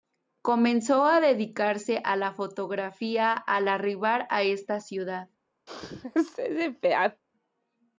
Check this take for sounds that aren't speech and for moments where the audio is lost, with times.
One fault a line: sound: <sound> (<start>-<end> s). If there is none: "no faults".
sound: sneeze (5.7-7.2 s)